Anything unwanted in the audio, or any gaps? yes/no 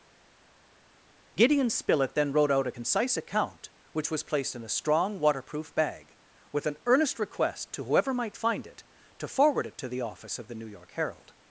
no